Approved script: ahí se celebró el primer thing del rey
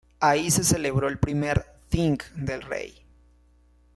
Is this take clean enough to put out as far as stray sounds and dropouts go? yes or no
yes